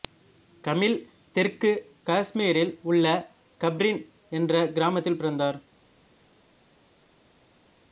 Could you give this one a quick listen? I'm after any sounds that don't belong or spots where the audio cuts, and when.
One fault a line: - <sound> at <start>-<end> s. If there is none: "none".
none